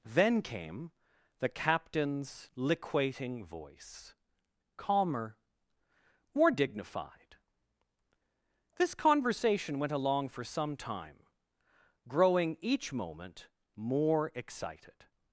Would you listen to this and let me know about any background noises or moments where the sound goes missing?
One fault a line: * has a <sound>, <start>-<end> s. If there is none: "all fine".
all fine